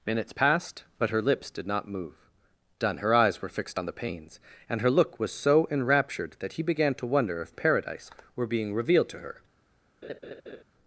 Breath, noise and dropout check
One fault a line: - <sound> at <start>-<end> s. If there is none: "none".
- laugh at 10.0-10.6 s